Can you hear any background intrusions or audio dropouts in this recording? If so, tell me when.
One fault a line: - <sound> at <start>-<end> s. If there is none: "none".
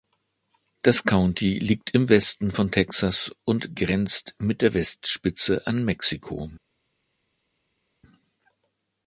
none